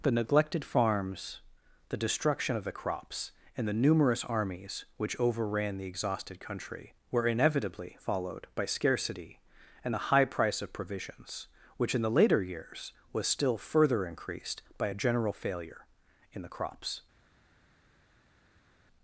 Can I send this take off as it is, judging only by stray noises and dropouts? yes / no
yes